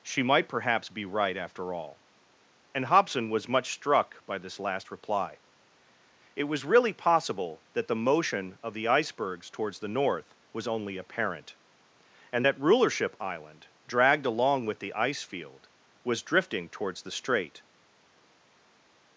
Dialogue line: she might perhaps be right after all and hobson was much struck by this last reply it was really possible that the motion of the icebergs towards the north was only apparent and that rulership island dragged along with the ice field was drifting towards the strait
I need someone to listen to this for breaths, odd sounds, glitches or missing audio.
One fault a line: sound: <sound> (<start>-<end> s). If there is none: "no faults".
no faults